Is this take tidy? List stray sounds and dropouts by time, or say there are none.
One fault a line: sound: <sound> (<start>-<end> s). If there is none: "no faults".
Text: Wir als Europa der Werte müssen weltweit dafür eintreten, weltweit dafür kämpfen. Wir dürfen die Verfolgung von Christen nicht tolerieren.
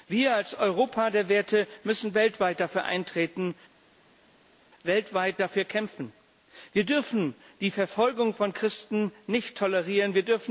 no faults